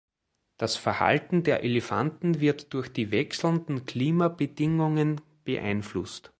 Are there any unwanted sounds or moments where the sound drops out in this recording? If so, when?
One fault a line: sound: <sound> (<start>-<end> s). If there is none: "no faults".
no faults